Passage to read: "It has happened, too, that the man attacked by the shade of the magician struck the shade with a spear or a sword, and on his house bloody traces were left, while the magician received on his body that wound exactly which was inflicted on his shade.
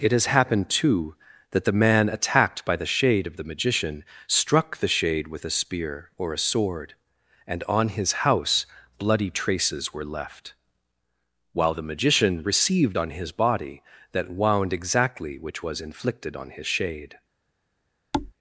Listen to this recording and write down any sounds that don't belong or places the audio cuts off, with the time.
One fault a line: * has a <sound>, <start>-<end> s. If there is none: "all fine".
* has a thud, 18.1-18.3 s